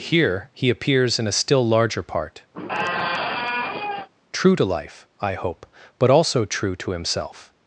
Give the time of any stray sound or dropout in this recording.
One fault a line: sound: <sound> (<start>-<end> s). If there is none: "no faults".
sound: squeak (2.5-4.1 s)